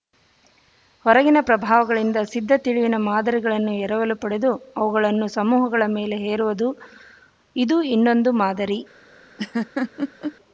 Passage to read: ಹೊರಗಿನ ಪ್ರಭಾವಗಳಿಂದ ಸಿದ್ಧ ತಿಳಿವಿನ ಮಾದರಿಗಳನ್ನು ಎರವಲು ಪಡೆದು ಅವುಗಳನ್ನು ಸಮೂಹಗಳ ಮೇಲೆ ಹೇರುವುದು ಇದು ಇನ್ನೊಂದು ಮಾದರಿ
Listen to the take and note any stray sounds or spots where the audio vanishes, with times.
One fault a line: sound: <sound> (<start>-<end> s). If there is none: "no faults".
sound: laugh (9.4-10.3 s)